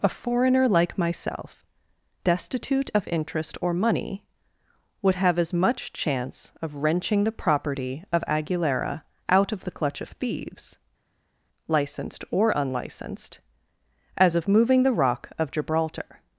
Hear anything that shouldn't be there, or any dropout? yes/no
no